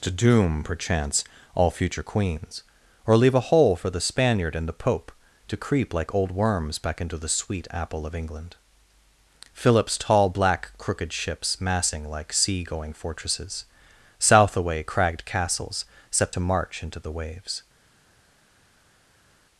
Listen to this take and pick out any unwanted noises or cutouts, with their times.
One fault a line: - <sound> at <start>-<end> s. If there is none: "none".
none